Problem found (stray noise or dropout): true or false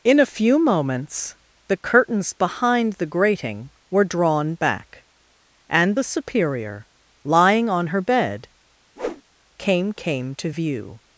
true